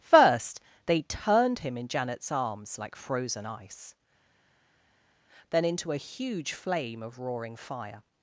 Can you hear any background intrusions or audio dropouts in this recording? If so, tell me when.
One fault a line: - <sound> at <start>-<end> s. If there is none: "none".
none